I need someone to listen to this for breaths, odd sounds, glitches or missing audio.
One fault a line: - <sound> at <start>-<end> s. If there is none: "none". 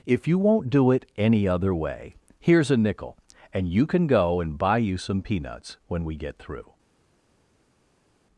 none